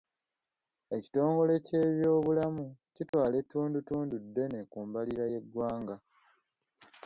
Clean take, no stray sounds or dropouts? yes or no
no